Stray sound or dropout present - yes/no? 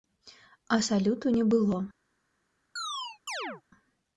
yes